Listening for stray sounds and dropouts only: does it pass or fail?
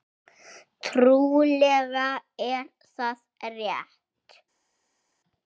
pass